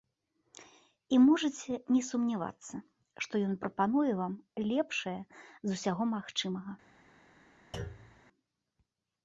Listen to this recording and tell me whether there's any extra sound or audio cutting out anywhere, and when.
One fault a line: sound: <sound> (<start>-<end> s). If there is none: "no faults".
sound: thud (7.7-8.2 s)